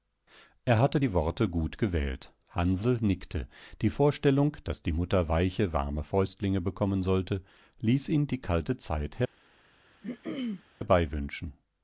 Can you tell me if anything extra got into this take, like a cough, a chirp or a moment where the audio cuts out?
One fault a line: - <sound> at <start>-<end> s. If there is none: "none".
- throat clearing at 10.0-10.6 s